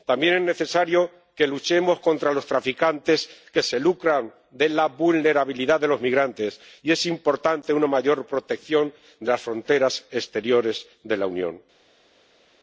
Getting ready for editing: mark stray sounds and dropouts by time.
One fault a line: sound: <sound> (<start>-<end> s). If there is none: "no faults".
no faults